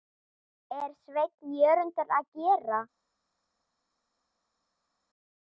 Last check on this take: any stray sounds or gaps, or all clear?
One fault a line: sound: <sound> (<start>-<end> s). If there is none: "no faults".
no faults